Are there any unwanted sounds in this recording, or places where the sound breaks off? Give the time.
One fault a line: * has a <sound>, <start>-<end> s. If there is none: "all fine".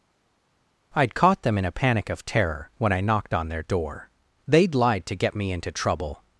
all fine